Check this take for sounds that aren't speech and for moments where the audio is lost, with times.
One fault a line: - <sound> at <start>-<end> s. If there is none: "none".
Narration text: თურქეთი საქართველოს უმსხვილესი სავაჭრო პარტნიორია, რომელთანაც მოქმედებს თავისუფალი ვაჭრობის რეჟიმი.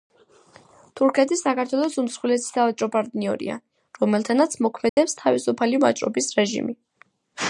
- dropout at 4.9-5.0 s